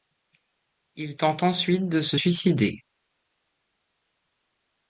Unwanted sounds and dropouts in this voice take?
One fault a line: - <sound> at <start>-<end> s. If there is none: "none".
none